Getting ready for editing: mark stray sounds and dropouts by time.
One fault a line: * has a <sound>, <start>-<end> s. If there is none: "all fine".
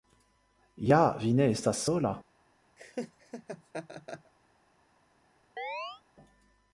* has a laugh, 2.8-4.3 s
* has a chirp, 5.6-6.0 s